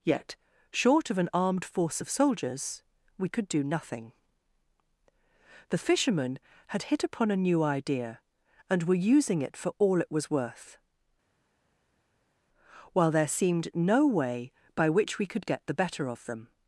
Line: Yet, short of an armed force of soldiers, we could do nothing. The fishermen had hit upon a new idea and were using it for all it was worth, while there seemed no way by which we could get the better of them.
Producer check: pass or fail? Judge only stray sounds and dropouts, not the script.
pass